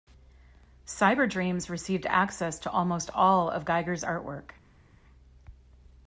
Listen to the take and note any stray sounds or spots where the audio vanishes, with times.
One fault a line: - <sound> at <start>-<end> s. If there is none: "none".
none